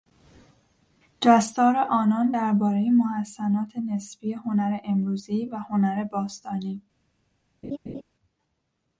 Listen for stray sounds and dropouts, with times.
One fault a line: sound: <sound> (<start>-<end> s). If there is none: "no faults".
sound: laugh (7.6-8.0 s)